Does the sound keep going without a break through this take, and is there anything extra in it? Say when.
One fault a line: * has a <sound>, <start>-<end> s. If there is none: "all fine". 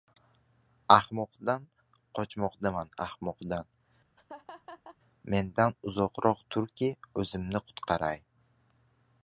* has a laugh, 4.2-5.0 s